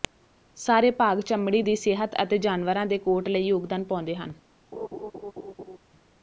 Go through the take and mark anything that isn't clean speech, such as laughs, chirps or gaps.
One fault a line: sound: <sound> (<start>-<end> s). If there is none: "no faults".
sound: laugh (4.7-5.8 s)